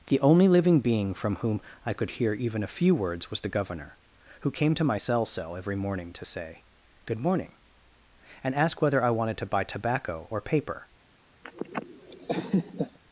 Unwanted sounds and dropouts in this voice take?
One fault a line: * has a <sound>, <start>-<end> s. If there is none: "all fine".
* has a laugh, 11.4-13.0 s